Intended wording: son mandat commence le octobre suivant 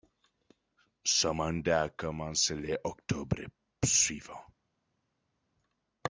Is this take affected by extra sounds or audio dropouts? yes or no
no